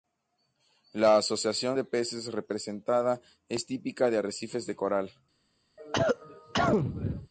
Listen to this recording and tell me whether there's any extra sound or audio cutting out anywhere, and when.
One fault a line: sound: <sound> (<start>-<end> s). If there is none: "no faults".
sound: cough (5.8-7.3 s)